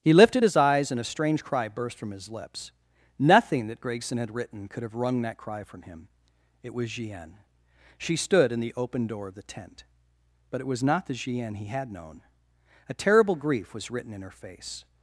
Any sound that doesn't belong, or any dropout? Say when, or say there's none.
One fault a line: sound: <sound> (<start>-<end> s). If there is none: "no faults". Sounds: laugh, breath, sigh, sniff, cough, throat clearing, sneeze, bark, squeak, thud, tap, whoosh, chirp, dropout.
no faults